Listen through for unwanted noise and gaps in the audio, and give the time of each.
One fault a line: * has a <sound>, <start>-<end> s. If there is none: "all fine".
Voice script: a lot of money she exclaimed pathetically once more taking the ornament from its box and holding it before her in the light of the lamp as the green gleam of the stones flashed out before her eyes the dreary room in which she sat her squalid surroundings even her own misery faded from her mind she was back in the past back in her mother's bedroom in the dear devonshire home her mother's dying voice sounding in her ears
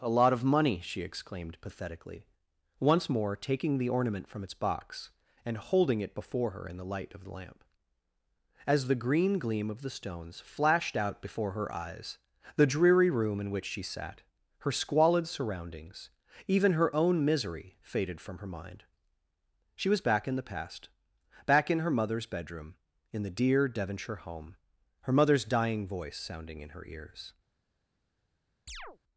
* has a chirp, 28.7-29.0 s